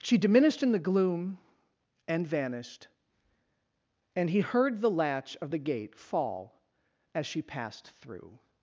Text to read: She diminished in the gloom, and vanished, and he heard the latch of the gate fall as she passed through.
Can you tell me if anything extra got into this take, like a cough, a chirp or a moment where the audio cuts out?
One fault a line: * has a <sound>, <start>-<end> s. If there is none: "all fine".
all fine